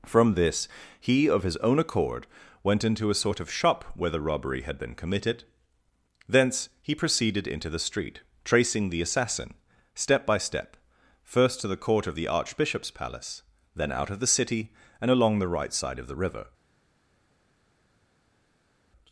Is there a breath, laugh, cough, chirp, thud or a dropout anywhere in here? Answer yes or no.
no